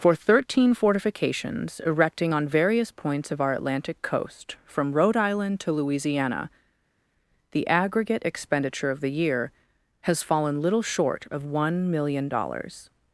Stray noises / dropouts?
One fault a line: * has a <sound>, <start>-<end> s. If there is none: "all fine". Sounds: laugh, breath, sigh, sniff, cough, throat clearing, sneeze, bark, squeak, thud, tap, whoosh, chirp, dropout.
all fine